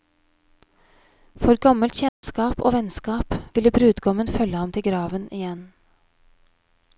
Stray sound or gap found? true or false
true